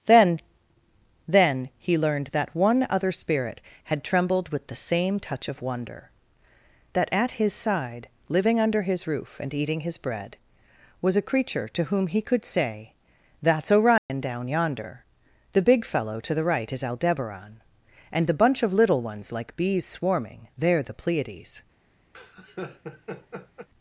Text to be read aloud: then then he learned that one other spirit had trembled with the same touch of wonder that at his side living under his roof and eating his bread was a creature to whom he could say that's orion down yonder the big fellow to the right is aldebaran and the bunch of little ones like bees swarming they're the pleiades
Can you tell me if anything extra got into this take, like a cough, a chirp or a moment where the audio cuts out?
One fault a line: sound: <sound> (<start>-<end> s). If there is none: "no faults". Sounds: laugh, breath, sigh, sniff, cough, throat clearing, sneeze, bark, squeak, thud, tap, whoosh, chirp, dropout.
sound: dropout (14.0-14.1 s)
sound: laugh (22.1-23.7 s)